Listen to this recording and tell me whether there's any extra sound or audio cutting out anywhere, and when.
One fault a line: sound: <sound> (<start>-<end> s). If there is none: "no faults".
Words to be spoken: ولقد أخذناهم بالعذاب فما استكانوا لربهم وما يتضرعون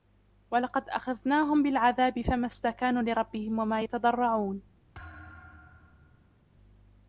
sound: thud (4.9-6.5 s)